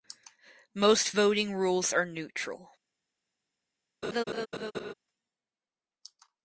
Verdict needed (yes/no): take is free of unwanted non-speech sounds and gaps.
no